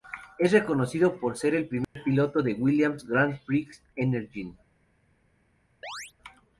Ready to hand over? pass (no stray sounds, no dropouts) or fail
fail